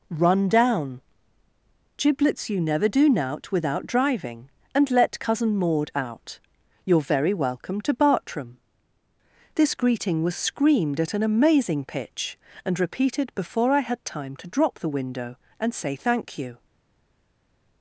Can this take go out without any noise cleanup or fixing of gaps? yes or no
yes